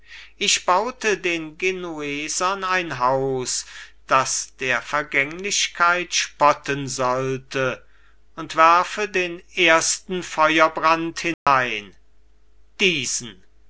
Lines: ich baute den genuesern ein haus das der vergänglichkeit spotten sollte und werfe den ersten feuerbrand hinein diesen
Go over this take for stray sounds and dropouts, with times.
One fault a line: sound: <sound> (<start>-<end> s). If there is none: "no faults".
sound: dropout (11.3-11.5 s)